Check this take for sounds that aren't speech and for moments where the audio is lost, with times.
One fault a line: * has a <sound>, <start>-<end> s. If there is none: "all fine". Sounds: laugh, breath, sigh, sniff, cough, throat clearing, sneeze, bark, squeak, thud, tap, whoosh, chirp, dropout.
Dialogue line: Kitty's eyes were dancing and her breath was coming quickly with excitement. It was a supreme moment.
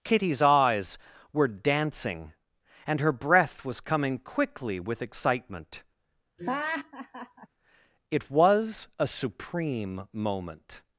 * has a laugh, 6.4-7.5 s